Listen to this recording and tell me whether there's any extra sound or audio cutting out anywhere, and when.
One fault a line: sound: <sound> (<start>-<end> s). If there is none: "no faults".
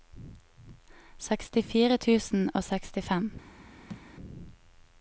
sound: thud (3.9-4.1 s)